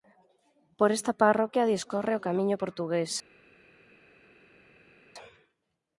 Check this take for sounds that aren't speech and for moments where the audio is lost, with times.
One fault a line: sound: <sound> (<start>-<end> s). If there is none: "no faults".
no faults